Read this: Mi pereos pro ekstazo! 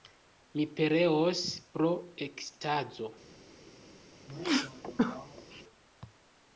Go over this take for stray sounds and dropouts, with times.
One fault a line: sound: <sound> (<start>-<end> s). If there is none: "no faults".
sound: sneeze (4.3-5.6 s)